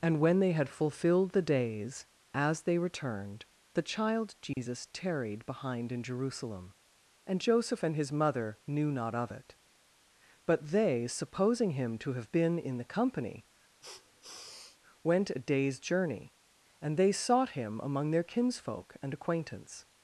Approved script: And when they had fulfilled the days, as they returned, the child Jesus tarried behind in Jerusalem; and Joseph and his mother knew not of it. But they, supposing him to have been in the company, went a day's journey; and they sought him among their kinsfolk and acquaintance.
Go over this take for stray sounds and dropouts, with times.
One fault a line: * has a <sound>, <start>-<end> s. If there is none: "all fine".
* has a dropout, 4.5-4.6 s
* has a sniff, 13.8-14.8 s